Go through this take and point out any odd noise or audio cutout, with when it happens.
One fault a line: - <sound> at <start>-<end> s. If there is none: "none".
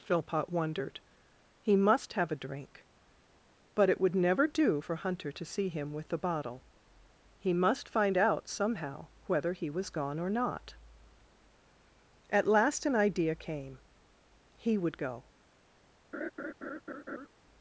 - laugh at 16.1-17.3 s